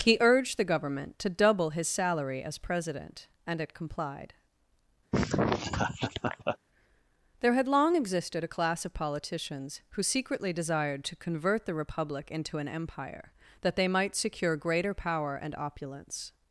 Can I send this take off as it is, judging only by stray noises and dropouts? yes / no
no